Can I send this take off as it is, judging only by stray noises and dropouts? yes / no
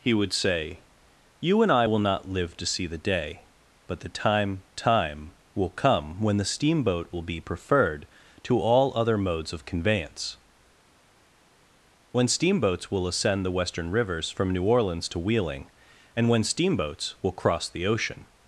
yes